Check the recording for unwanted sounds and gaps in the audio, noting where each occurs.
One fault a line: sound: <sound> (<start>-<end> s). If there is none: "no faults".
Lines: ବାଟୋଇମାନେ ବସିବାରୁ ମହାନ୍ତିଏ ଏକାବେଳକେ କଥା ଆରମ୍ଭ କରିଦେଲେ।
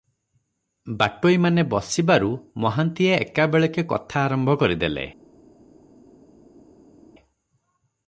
no faults